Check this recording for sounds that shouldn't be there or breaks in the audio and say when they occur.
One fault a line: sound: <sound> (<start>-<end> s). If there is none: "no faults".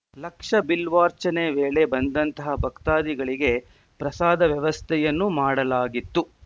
no faults